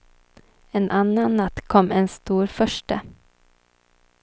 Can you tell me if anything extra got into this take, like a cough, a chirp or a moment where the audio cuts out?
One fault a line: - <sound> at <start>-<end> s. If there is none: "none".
none